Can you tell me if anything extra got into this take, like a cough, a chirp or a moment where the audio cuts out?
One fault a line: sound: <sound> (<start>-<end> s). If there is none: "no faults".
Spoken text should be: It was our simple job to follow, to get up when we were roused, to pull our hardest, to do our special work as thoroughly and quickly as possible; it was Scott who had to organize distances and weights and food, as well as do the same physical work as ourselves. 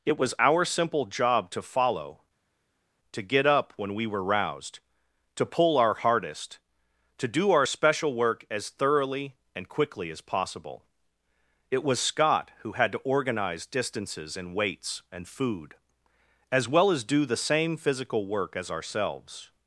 no faults